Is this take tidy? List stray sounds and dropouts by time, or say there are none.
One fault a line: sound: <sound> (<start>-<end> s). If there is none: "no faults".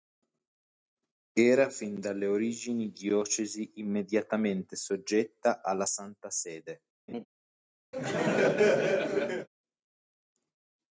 sound: laugh (7.1-7.3 s)
sound: laugh (7.9-9.5 s)